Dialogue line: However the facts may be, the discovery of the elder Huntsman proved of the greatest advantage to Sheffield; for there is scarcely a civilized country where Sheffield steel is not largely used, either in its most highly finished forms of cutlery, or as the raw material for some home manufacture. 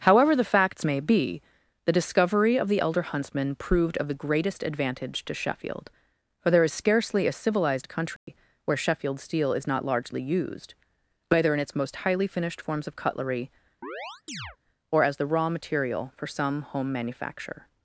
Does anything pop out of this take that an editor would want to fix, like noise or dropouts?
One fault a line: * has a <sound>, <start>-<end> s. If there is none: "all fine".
* has a dropout, 8.2-8.3 s
* has a chirp, 13.8-14.6 s